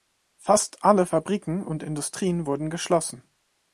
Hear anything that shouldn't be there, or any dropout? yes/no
no